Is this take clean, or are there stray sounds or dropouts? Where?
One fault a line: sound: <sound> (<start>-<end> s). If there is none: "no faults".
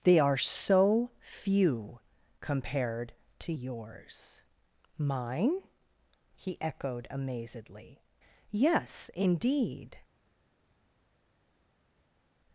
no faults